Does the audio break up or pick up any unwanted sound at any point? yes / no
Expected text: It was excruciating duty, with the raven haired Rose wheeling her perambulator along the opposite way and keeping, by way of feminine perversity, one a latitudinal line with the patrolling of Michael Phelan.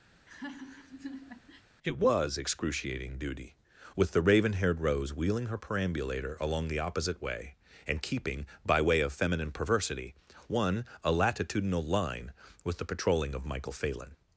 yes